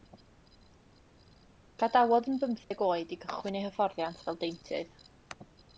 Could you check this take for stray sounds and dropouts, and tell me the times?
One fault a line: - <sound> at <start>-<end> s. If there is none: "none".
- dropout at 2.6-2.7 s